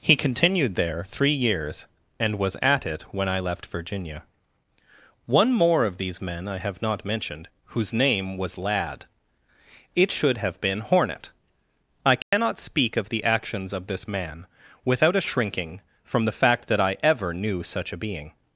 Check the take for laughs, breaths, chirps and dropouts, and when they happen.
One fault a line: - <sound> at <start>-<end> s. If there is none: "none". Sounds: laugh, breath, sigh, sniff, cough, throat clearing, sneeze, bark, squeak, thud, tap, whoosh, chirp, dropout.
- dropout at 12.2-12.3 s